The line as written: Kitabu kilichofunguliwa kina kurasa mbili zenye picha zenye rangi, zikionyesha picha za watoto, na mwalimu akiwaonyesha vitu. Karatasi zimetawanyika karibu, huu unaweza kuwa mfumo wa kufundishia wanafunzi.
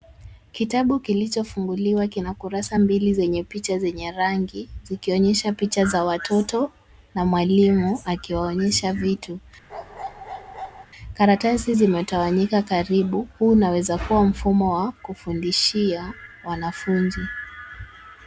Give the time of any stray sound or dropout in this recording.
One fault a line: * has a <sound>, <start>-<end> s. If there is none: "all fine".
* has a bark, 9.7-10.9 s